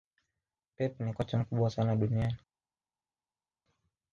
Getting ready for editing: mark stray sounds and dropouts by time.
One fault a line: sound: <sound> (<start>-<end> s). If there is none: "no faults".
no faults